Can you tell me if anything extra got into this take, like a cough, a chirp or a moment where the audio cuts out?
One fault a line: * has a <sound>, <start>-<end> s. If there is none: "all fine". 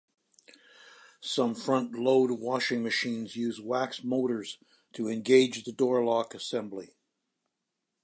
all fine